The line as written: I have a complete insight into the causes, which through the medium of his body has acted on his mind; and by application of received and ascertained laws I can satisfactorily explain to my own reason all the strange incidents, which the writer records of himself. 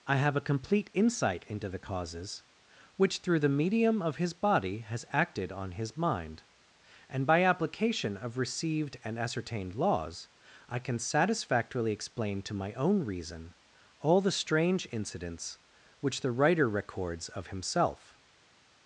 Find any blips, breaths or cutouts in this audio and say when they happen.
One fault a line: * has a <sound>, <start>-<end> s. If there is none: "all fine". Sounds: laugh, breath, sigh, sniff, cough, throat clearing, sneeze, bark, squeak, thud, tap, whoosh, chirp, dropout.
all fine